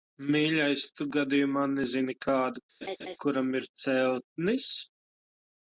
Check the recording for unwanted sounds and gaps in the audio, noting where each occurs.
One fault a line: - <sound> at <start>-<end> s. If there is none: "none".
- laugh at 2.8-3.2 s